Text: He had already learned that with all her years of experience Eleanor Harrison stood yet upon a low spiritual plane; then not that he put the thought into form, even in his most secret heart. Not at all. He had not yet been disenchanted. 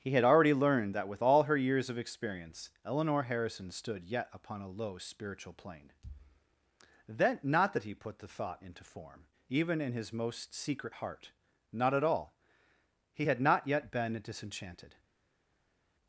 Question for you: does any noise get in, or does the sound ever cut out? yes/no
no